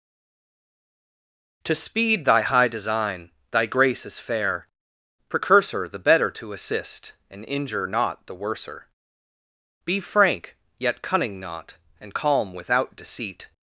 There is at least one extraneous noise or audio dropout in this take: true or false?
false